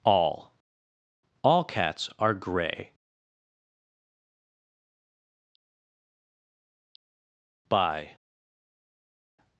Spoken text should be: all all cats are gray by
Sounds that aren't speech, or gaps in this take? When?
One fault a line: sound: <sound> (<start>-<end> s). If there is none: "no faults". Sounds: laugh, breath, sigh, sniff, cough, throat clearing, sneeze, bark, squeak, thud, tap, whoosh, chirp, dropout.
no faults